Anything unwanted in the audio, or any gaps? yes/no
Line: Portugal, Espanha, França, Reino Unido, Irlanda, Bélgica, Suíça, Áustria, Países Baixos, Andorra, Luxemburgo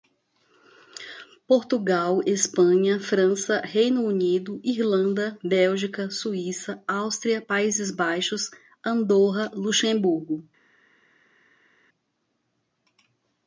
no